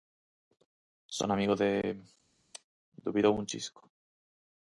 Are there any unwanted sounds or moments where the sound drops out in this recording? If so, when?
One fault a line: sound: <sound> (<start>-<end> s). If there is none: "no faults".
no faults